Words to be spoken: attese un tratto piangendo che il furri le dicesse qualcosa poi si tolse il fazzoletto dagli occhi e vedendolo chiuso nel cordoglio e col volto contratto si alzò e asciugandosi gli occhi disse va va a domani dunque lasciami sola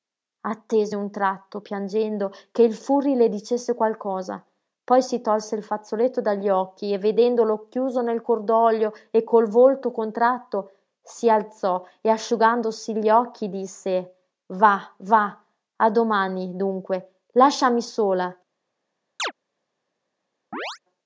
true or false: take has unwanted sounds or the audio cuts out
true